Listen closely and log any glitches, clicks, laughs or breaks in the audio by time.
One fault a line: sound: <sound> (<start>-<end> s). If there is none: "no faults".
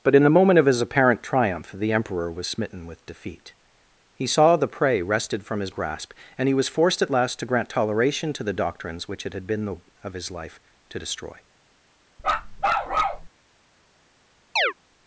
sound: bark (12.2-13.3 s)
sound: chirp (14.6-14.7 s)